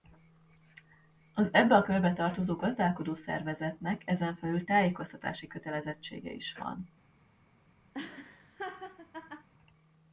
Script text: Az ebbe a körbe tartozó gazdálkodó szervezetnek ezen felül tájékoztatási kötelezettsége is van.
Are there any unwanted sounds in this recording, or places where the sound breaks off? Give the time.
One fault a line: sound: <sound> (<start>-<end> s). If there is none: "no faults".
sound: laugh (7.9-9.5 s)